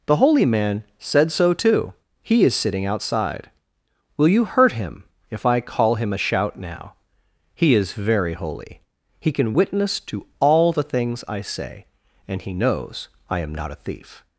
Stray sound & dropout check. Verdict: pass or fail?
pass